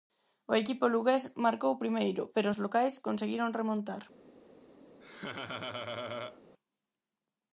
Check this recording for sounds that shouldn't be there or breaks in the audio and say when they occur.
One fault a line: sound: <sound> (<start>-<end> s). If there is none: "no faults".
sound: laugh (5.0-6.4 s)